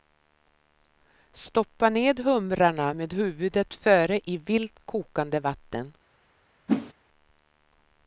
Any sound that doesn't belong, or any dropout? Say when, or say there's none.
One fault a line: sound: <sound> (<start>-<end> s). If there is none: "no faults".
sound: whoosh (6.7-6.9 s)